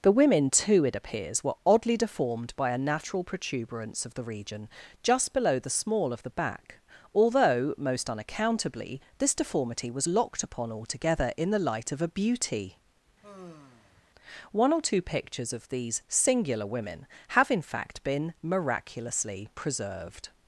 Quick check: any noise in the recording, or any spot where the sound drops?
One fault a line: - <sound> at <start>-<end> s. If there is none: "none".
- sigh at 13.2-14.1 s